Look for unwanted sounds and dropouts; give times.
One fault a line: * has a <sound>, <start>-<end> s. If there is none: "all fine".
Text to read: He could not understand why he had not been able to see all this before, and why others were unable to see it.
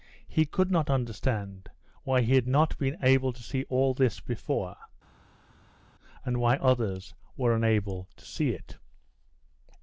all fine